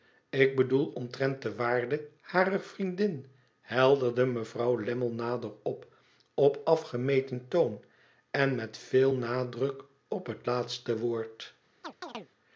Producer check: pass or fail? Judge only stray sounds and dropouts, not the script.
fail